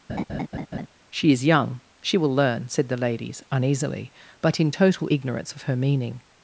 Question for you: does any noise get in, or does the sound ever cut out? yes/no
yes